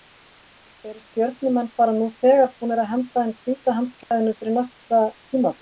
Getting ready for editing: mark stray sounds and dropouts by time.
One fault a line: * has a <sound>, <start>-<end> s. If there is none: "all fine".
* has a dropout, 4.0-4.1 s